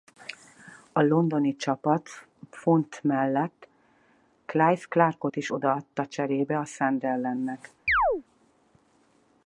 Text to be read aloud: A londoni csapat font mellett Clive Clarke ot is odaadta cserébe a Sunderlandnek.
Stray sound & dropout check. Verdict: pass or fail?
fail